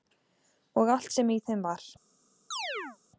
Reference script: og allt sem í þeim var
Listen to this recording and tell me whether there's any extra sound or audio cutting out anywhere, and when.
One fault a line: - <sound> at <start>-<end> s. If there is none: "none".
- chirp at 2.5-3.0 s